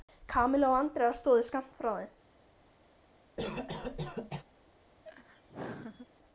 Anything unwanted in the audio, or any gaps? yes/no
yes